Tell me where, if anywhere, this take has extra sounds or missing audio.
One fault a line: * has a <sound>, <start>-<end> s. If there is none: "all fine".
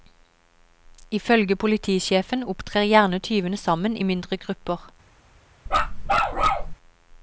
* has a bark, 5.7-6.7 s